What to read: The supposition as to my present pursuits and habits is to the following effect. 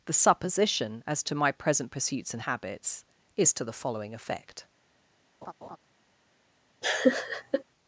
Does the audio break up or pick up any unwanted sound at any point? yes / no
yes